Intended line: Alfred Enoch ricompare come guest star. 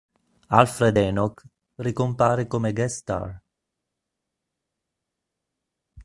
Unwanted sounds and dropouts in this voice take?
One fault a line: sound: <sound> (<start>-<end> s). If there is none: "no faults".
no faults